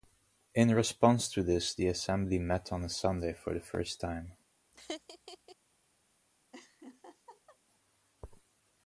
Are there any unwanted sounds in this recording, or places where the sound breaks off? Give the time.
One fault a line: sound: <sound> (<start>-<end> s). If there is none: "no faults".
sound: laugh (4.7-5.6 s)
sound: laugh (6.5-7.6 s)